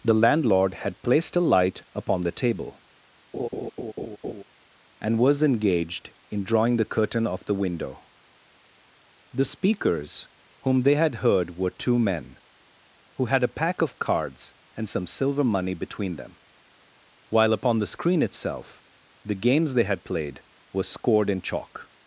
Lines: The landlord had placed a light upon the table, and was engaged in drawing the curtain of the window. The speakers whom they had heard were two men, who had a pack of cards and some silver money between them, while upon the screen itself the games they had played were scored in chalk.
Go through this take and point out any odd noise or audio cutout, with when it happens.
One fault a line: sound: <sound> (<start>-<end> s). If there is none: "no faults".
sound: laugh (3.3-4.4 s)